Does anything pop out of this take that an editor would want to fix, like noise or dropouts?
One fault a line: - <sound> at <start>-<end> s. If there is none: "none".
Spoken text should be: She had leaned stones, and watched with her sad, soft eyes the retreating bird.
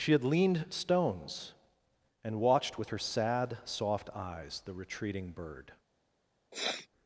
- sniff at 6.5-6.9 s